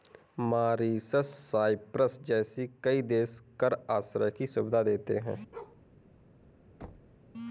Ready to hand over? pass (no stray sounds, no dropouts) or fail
fail